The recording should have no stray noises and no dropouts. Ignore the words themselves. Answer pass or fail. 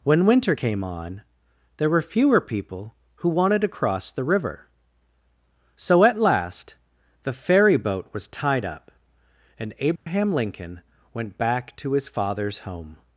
fail